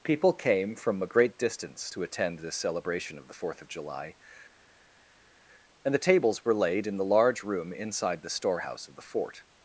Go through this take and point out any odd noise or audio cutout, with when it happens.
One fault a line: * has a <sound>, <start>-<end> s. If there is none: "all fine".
all fine